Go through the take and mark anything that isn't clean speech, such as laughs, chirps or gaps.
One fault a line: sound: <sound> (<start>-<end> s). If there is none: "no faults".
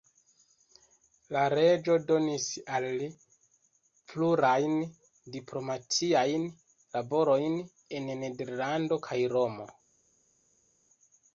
no faults